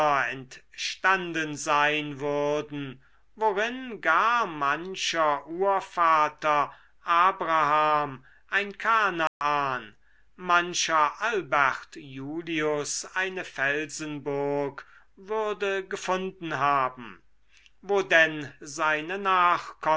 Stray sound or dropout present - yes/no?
yes